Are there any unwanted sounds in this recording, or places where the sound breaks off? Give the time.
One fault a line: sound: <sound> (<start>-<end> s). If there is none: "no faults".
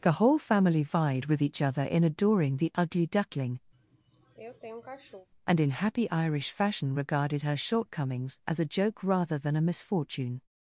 sound: sneeze (3.7-5.3 s)